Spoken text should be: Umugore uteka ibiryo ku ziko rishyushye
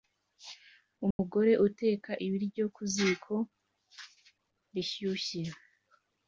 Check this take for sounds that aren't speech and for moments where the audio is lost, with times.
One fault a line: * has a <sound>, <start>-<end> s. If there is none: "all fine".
* has a dropout, 1.1-1.2 s